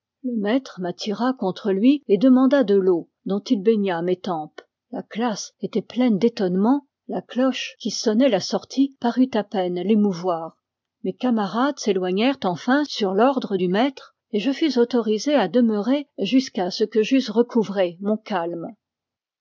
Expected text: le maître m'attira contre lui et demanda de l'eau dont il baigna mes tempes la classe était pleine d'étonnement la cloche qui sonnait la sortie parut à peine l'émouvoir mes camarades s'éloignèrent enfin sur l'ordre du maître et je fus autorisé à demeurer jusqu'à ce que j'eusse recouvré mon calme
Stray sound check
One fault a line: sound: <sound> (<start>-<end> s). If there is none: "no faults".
no faults